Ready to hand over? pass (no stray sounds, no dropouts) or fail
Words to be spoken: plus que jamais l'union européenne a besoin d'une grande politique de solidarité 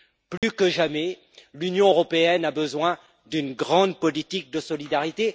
fail